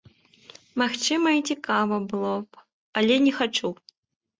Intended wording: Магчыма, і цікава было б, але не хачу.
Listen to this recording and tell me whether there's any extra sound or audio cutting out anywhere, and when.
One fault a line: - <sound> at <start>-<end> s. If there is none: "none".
none